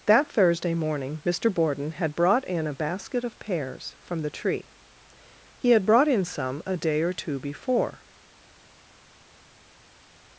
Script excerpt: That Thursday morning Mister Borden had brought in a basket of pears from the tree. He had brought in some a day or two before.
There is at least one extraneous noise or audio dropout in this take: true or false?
false